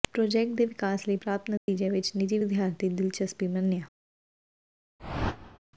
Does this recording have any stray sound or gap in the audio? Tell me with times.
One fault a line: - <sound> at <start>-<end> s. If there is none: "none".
- dropout at 1.6-1.7 s
- whoosh at 5.0-5.6 s